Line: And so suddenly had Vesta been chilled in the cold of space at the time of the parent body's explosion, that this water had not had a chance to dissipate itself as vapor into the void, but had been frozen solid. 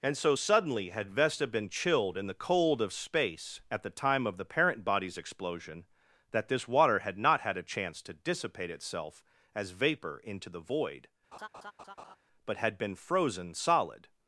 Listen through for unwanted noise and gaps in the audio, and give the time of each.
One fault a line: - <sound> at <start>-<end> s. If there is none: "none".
- laugh at 11.3-12.2 s